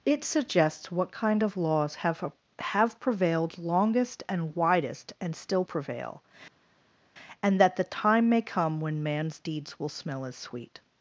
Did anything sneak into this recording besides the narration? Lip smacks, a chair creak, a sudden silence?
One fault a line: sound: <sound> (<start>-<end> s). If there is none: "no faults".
no faults